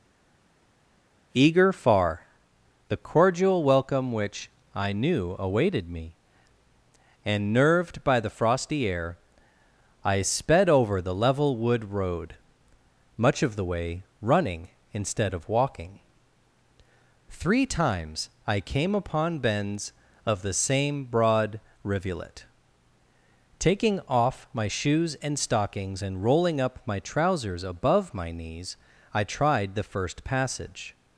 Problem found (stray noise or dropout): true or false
false